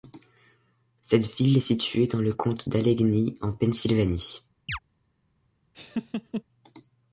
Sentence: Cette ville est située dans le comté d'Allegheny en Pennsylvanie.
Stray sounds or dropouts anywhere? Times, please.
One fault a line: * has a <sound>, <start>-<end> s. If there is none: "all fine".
* has a chirp, 4.7-4.8 s
* has a laugh, 5.7-6.4 s